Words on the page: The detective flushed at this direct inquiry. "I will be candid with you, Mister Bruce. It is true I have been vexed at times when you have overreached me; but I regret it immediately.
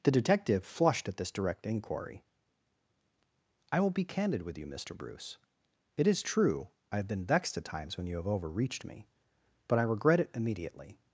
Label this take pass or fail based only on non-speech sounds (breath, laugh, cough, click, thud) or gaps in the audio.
pass